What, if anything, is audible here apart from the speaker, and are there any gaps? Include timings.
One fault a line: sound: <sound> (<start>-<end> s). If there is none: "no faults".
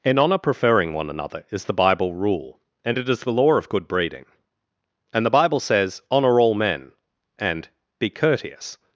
no faults